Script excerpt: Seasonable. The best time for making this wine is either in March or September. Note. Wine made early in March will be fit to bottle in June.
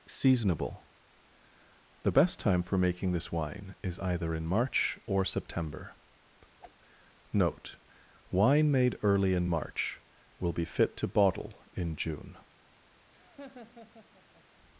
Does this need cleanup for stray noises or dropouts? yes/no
yes